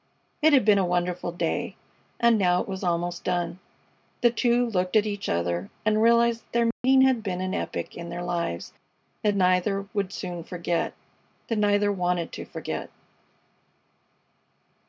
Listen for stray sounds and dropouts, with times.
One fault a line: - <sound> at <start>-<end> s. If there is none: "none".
- dropout at 6.7-6.8 s